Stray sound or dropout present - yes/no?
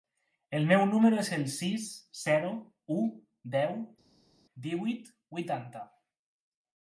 no